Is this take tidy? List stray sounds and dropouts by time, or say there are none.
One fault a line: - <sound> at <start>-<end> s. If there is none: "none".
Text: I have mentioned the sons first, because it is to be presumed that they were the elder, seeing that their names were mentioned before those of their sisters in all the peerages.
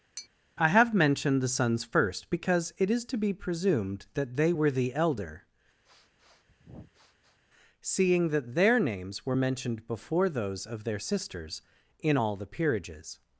- tap at 0.2-0.3 s
- sniff at 5.8-7.4 s